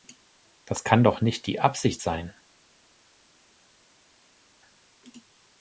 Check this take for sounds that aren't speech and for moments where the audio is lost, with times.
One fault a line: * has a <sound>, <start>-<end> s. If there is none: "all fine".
all fine